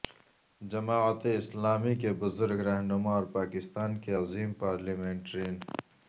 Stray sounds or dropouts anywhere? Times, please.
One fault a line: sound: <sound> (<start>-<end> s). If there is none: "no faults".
no faults